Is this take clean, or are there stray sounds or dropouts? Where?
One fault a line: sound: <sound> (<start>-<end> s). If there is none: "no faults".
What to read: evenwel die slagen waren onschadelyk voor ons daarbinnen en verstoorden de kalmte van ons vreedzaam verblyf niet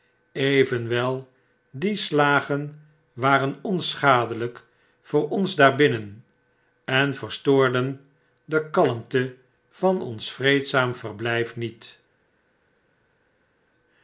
no faults